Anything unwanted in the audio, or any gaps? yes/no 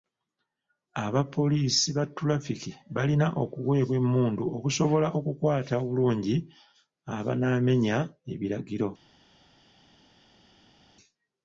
no